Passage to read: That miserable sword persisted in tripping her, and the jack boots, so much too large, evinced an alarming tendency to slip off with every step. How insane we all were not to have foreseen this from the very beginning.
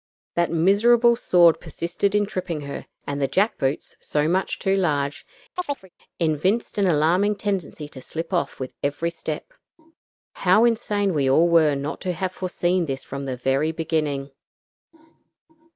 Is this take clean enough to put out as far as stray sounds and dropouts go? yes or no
no